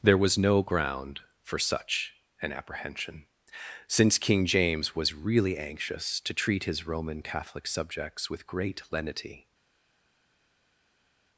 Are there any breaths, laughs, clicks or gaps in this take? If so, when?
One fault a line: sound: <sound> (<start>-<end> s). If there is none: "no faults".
no faults